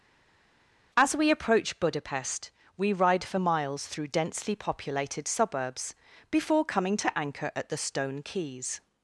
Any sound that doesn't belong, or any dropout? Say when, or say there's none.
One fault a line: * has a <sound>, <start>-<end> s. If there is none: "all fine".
all fine